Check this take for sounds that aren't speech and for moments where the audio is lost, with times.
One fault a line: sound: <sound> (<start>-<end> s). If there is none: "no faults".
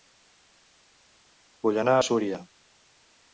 no faults